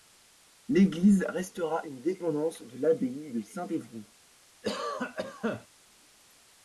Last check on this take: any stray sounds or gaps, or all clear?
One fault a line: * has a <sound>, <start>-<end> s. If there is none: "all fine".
* has a cough, 4.6-5.7 s